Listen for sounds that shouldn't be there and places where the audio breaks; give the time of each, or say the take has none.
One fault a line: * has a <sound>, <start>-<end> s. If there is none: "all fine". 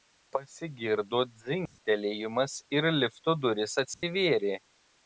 * has a dropout, 1.7-1.8 s
* has a dropout, 3.9-4.0 s